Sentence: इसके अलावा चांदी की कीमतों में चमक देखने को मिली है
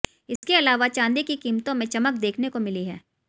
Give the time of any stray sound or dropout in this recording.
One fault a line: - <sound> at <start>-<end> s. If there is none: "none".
- dropout at 0.4-0.4 s